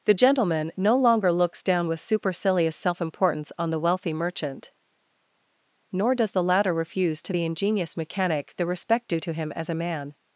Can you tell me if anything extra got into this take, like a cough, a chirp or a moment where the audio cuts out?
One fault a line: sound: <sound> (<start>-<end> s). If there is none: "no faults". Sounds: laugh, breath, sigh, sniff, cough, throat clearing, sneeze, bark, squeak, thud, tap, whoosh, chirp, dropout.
no faults